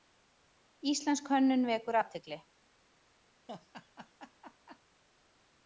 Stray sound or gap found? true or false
true